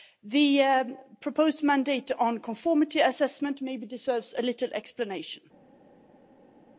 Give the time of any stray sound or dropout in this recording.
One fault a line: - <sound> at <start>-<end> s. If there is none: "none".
none